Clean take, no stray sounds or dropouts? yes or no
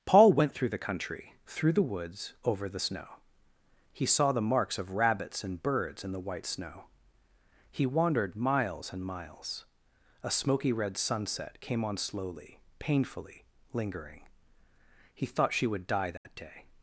no